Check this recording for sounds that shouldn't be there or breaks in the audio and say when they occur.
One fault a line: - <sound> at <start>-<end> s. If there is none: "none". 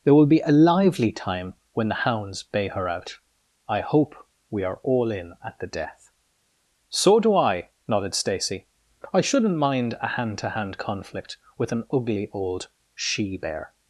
none